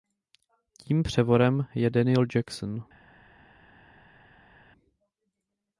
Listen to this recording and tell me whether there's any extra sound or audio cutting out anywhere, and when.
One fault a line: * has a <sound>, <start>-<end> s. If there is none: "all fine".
all fine